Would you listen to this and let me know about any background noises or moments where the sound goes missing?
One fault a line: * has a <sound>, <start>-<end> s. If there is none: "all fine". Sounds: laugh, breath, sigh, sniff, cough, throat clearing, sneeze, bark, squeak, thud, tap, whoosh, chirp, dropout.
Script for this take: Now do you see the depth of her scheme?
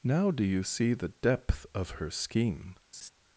* has a laugh, 2.9-3.1 s